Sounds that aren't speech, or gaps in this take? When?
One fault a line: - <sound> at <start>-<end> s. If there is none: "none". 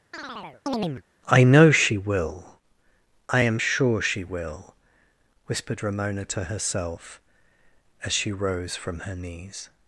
- chirp at 0.1-1.0 s